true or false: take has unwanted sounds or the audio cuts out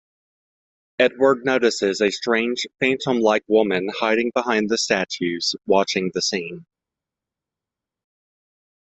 false